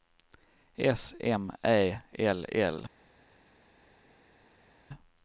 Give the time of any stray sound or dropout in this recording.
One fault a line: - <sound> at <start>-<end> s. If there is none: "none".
none